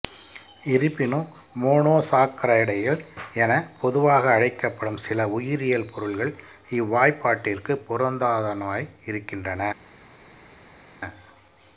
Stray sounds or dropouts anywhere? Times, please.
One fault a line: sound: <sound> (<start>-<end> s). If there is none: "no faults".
no faults